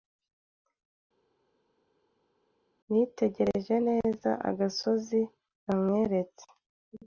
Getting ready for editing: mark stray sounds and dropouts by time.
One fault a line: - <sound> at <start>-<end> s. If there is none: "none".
none